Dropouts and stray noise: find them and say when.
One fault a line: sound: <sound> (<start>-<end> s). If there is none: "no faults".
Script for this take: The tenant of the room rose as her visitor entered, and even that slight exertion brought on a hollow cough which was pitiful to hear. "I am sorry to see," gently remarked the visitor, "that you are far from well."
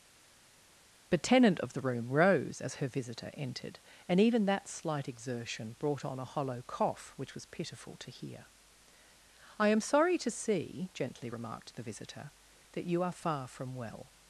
no faults